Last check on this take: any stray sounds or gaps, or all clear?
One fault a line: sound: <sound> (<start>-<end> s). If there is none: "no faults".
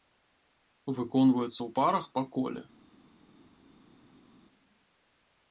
no faults